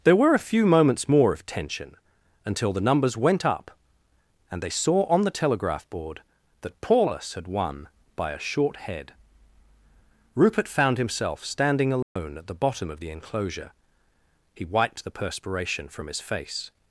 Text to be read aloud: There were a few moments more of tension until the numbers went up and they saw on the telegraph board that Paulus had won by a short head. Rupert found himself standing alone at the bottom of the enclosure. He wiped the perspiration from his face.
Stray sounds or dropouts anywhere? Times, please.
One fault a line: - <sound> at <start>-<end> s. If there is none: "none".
- dropout at 12.0-12.2 s